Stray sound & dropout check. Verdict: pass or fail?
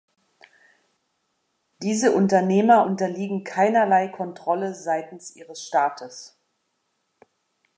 pass